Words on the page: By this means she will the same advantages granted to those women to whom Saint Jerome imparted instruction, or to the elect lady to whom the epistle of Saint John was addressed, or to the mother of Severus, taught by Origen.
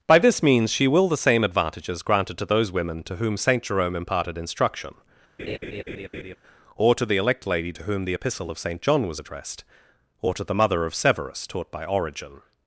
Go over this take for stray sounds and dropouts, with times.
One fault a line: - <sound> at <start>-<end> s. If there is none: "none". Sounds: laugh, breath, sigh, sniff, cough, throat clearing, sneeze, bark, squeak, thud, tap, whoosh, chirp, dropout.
- laugh at 5.4-6.4 s